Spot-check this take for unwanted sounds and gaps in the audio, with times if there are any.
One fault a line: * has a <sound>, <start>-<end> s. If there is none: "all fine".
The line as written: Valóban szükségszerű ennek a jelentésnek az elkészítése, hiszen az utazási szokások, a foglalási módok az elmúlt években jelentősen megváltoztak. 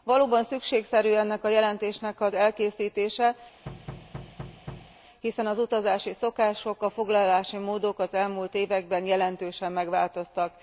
* has a thud, 3.7-5.0 s